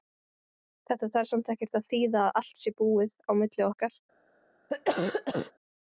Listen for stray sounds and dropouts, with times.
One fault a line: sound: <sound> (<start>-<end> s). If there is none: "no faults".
sound: cough (4.7-5.5 s)